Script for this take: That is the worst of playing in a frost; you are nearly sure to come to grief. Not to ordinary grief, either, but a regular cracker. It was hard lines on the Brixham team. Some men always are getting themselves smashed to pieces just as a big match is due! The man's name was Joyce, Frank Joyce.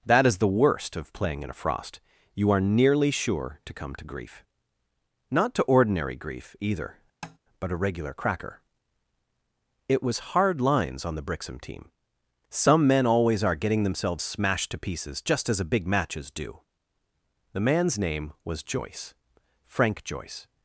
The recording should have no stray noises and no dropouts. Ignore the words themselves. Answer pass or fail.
fail